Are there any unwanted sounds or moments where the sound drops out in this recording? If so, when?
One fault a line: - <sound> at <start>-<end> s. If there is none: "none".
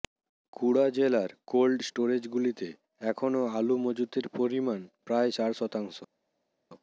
none